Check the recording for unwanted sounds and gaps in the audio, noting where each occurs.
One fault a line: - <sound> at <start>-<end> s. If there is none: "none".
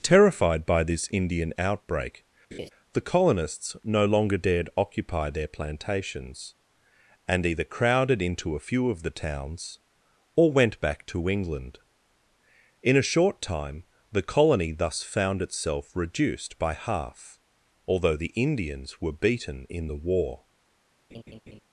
- laugh at 2.5-2.7 s
- laugh at 21.1-21.6 s